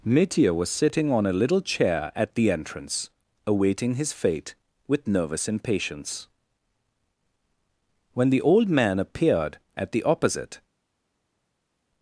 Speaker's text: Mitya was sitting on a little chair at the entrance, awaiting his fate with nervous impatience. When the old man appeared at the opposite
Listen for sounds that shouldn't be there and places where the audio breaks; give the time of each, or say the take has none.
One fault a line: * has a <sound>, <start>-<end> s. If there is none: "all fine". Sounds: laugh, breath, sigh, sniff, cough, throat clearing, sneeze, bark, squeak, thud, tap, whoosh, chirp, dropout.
all fine